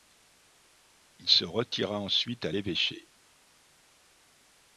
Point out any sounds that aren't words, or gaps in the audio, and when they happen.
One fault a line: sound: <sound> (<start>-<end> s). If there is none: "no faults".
no faults